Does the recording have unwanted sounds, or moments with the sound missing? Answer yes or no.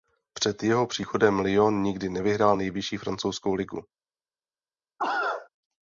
yes